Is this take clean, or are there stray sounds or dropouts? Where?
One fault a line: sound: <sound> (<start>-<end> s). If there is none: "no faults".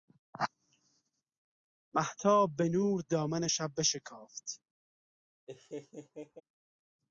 sound: laugh (5.5-6.4 s)